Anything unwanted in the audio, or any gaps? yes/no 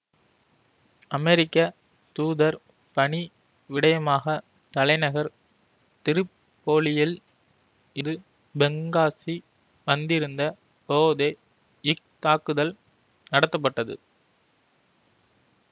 no